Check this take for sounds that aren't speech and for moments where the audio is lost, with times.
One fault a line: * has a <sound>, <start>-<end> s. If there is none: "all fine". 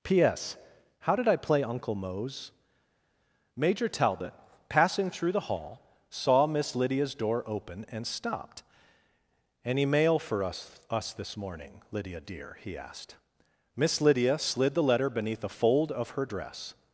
all fine